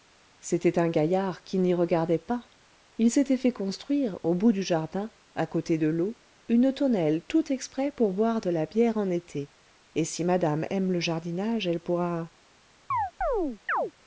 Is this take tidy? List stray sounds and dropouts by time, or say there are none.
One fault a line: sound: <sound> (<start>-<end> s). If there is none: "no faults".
sound: chirp (12.9-13.9 s)